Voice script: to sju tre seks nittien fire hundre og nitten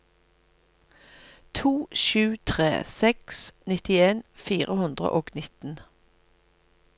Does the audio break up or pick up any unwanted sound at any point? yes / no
no